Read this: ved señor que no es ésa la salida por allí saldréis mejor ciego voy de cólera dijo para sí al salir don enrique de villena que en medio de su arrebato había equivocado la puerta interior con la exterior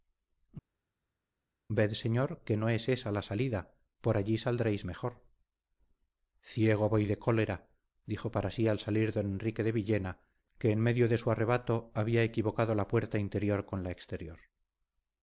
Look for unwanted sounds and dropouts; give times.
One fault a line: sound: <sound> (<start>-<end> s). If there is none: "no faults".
no faults